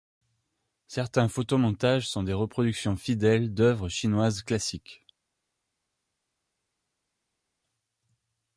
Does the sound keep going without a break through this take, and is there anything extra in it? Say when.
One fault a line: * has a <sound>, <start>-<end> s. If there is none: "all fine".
all fine